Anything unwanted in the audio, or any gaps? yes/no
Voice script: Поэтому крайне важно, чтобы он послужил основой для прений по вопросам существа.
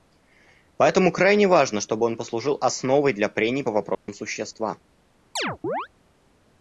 yes